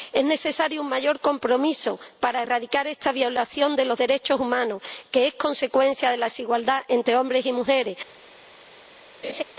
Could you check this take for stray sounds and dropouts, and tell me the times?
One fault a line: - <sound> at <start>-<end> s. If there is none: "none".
- laugh at 9.2-9.4 s